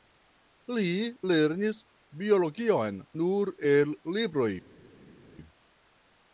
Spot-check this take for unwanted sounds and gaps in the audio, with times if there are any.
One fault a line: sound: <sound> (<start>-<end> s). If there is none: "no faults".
no faults